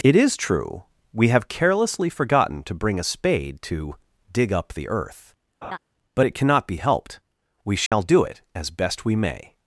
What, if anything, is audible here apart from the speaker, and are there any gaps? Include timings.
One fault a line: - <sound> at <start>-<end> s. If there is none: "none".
- laugh at 5.6-5.8 s
- dropout at 7.9-7.9 s